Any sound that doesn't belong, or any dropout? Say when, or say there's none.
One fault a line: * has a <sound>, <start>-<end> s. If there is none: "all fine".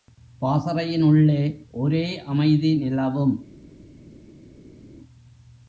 all fine